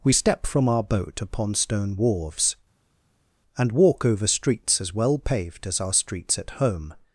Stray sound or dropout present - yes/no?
no